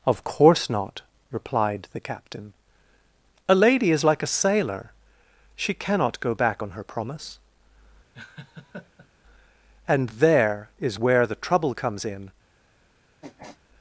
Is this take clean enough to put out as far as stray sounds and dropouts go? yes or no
no